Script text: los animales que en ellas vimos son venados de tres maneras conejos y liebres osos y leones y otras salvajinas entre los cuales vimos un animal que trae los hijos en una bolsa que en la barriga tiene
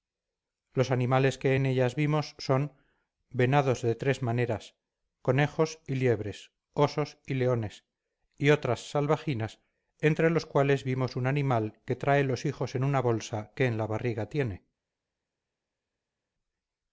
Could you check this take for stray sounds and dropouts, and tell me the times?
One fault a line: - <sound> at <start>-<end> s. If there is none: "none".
none